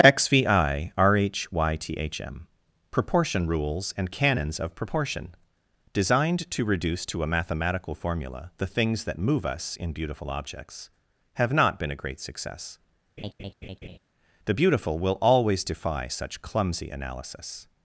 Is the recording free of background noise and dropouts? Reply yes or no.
no